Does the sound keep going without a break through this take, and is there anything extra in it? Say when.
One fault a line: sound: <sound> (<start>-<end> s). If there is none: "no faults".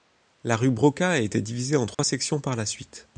sound: dropout (1.9-2.0 s)